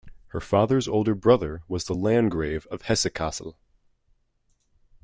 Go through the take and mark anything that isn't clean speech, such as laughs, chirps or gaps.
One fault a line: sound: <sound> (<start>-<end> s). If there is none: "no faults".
no faults